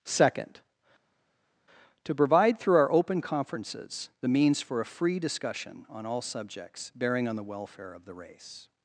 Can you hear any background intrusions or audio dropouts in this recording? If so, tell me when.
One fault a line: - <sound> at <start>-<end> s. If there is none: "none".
none